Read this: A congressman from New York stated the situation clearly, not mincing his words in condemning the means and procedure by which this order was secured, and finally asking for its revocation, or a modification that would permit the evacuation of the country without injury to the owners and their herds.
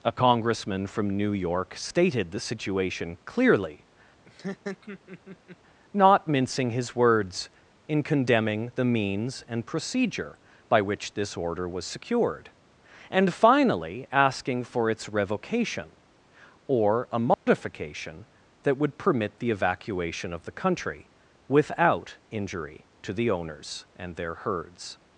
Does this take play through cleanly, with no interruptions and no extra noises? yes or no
no